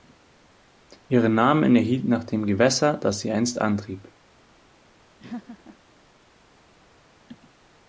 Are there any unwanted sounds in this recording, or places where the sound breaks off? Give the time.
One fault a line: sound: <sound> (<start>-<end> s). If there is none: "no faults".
sound: laugh (5.2-5.8 s)